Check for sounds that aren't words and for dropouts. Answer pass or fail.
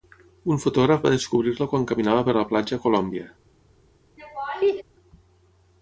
fail